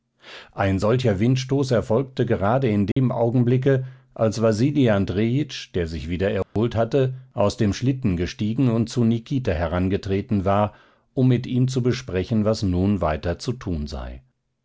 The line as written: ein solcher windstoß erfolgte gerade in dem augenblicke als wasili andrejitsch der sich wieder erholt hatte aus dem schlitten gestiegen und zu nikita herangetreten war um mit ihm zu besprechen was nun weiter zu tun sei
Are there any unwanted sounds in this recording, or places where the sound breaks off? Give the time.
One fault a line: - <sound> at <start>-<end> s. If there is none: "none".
- dropout at 2.9-3.0 s
- dropout at 6.4-6.6 s